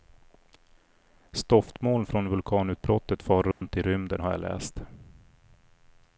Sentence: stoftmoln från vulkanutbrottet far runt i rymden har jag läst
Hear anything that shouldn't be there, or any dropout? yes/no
yes